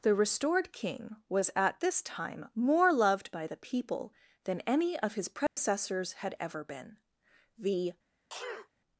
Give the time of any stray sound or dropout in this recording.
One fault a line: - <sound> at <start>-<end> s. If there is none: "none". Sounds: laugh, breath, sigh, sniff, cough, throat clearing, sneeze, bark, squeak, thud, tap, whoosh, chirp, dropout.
- dropout at 5.5-5.6 s
- sneeze at 8.3-8.7 s